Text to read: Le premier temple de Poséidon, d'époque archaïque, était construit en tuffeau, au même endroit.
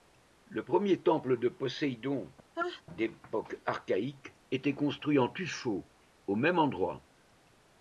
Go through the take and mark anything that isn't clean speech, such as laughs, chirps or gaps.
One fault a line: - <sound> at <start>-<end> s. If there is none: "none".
- sneeze at 2.5-2.8 s